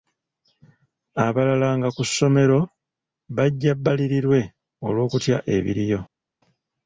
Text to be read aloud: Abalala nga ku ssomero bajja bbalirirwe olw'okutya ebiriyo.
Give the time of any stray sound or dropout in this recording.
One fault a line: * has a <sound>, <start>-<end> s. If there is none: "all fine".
all fine